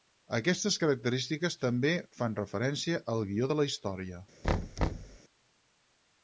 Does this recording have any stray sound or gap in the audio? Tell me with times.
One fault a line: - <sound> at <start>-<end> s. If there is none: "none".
- thud at 4.4-5.2 s